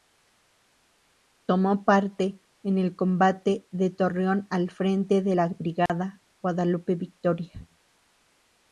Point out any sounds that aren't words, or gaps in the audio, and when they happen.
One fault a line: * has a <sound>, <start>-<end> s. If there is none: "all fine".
* has a dropout, 5.9-5.9 s